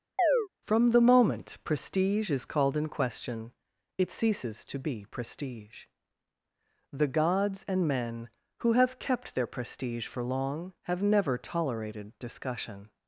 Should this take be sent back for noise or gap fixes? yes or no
yes